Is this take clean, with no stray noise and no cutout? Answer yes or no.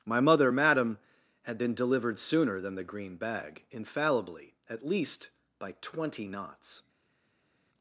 yes